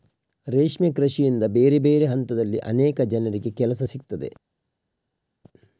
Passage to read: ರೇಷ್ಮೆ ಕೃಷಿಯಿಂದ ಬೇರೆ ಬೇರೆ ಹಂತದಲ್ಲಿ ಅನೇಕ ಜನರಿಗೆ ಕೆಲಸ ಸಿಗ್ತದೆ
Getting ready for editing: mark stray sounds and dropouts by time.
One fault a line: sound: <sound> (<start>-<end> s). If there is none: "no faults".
no faults